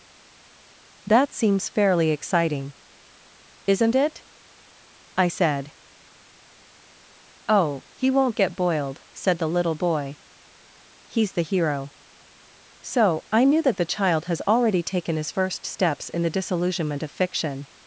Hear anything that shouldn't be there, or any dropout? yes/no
no